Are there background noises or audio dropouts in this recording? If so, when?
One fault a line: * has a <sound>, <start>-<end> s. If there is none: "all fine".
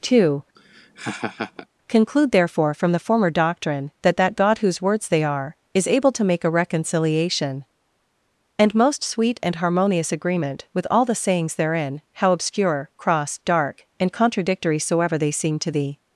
* has a laugh, 0.5-1.7 s